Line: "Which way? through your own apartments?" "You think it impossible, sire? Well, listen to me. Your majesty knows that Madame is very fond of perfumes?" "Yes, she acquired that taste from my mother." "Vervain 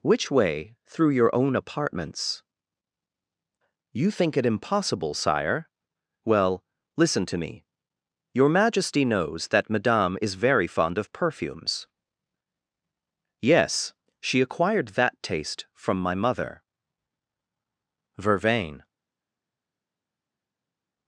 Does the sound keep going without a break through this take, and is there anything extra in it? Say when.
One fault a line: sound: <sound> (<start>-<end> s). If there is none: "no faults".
no faults